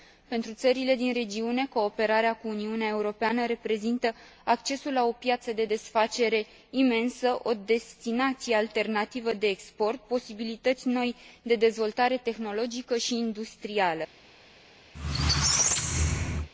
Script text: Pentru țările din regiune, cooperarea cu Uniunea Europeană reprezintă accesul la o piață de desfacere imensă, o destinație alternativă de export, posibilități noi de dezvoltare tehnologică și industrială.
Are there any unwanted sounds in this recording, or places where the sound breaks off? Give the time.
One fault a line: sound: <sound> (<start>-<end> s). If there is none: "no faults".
sound: squeak (14.9-16.5 s)